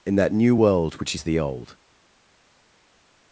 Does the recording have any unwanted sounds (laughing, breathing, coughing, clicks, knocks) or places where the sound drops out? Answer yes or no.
no